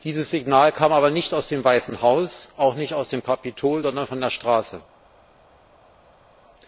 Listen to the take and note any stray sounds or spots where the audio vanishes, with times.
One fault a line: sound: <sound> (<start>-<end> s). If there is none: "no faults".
no faults